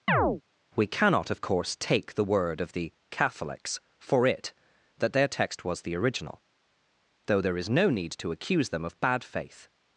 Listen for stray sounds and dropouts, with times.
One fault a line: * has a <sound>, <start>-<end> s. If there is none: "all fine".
* has a chirp, 0.1-0.4 s